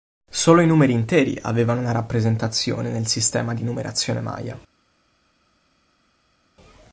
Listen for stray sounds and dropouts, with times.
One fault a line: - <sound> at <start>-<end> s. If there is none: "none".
none